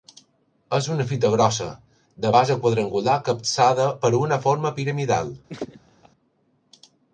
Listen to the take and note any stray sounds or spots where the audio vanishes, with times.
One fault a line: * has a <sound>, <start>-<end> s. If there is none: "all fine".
* has a laugh, 5.5-6.1 s